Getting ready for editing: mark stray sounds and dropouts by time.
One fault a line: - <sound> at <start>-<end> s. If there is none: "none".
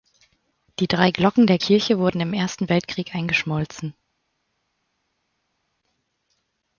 none